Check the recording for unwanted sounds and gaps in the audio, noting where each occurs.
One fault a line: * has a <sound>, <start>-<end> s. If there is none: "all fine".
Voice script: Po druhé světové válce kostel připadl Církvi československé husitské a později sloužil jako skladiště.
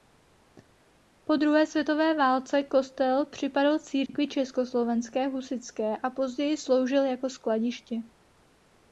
* has a dropout, 4.1-4.1 s